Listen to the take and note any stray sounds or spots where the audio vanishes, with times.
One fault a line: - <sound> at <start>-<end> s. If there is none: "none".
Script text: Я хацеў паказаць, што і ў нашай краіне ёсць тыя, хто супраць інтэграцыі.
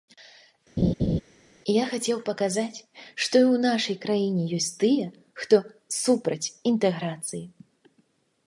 - laugh at 0.8-1.2 s